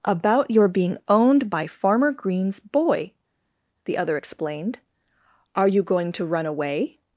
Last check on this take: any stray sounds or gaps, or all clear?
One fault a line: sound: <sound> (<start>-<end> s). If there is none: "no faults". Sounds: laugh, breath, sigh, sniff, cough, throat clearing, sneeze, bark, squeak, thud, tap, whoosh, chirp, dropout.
no faults